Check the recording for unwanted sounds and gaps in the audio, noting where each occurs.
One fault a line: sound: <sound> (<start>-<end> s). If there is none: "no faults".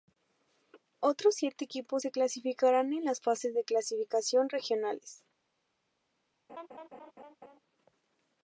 sound: laugh (6.5-7.6 s)